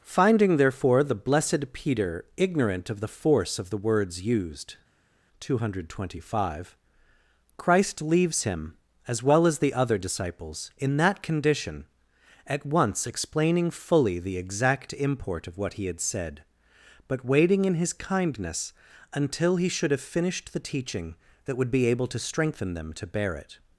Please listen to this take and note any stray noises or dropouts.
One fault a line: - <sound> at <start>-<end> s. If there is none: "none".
none